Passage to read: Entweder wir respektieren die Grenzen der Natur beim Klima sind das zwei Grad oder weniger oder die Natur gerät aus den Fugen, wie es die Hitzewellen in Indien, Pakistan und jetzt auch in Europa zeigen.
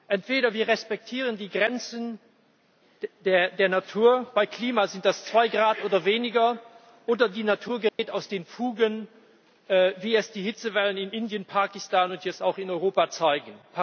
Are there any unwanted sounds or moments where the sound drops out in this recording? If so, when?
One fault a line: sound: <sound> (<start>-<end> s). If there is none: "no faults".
sound: dropout (7.9-8.0 s)